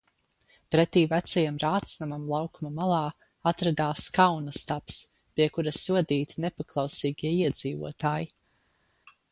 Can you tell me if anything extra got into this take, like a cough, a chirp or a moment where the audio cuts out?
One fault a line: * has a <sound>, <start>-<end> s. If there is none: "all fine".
all fine